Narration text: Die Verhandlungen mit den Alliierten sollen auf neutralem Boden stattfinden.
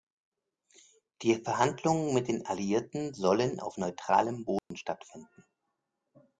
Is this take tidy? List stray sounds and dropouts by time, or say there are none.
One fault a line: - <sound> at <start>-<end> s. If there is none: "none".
- dropout at 4.6-4.7 s